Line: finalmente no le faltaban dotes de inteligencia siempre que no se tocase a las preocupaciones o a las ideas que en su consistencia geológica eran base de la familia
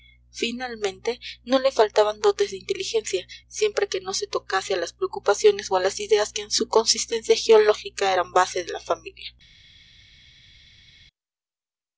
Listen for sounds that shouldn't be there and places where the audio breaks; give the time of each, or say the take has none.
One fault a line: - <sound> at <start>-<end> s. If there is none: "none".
none